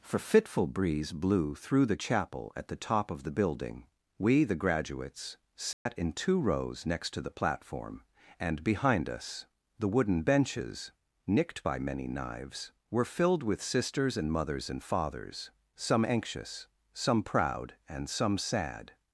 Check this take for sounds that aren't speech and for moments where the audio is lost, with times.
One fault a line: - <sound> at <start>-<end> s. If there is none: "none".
- dropout at 5.7-5.9 s